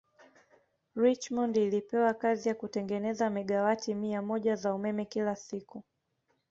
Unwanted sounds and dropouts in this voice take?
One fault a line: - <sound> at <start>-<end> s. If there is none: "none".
none